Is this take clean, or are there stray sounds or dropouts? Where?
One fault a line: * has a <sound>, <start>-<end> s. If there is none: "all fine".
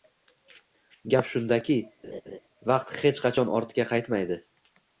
* has a laugh, 2.0-2.4 s